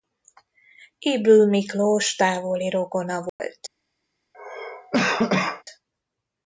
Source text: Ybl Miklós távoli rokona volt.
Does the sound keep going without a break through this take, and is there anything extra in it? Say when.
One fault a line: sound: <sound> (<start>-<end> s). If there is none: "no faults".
sound: dropout (3.3-3.4 s)
sound: cough (4.3-5.6 s)